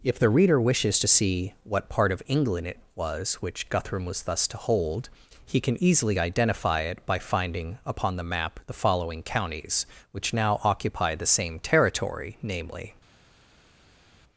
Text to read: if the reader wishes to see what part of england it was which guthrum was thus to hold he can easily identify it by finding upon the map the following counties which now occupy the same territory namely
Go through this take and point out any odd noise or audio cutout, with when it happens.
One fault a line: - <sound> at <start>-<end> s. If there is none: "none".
none